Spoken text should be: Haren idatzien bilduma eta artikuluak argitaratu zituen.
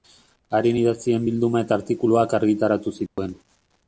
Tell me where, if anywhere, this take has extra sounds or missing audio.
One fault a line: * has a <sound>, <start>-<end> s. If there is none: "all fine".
* has a dropout, 3.1-3.2 s